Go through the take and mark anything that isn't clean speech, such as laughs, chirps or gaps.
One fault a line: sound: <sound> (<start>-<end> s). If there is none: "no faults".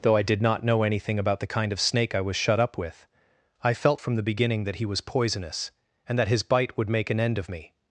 no faults